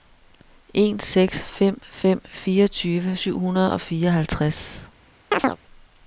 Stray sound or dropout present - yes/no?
yes